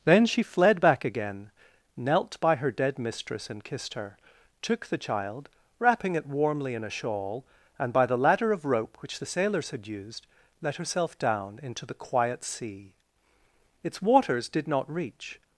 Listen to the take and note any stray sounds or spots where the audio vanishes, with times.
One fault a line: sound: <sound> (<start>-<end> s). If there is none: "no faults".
no faults